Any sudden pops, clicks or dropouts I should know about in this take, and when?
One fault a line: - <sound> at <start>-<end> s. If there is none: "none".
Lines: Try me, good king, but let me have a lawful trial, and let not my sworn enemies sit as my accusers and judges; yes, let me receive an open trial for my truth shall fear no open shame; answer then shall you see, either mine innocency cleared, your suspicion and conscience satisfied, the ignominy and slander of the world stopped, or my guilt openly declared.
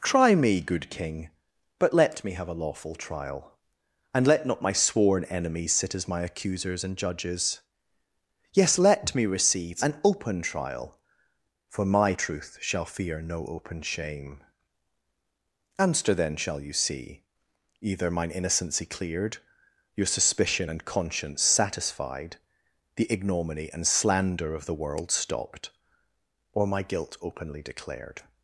none